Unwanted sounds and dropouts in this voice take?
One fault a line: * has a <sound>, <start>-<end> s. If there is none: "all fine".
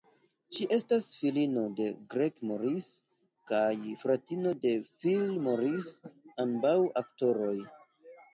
all fine